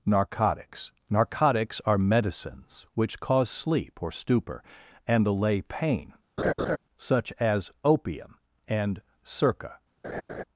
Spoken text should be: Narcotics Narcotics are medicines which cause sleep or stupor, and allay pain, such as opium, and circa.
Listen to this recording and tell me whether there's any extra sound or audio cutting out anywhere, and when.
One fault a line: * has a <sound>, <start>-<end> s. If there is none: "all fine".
* has a laugh, 6.4-6.8 s
* has a laugh, 10.0-10.4 s